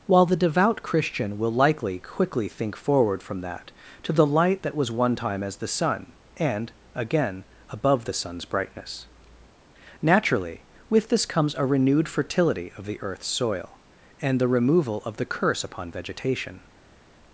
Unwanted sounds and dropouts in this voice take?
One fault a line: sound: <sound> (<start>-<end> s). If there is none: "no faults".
no faults